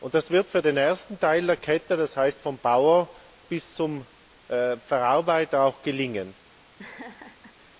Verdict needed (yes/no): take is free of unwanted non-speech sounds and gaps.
no